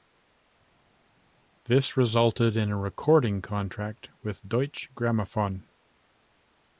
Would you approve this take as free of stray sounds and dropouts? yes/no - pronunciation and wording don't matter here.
yes